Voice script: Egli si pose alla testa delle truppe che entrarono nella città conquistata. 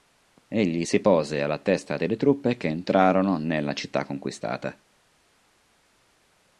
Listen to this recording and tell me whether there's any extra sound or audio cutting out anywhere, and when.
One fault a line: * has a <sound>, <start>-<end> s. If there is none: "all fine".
all fine